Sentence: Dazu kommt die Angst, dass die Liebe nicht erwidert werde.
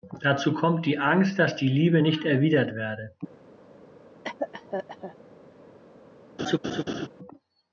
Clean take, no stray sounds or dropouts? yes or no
no